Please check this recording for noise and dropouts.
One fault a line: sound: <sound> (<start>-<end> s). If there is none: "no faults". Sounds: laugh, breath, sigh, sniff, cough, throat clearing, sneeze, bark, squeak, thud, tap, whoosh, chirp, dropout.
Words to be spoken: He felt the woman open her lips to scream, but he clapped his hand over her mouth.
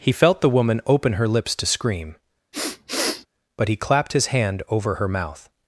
sound: sniff (2.5-3.3 s)